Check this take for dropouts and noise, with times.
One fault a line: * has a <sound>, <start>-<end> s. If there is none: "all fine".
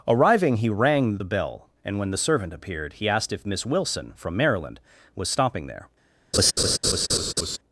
* has a laugh, 6.3-7.6 s